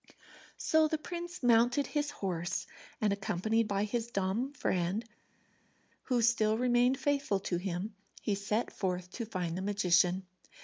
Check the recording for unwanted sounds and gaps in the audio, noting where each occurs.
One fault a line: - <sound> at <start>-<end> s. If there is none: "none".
none